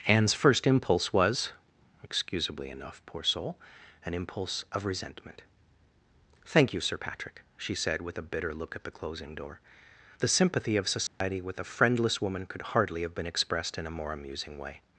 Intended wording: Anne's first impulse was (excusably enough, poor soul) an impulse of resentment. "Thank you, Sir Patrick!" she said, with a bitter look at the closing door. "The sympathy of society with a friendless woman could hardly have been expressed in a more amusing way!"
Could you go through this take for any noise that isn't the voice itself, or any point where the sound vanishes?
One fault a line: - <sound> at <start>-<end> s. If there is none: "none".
- dropout at 11.1-11.2 s